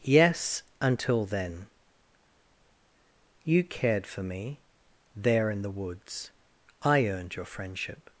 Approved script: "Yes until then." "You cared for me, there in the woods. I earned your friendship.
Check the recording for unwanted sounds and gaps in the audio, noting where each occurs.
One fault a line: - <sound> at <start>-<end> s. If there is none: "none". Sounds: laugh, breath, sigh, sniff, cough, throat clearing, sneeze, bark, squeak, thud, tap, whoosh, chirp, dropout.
none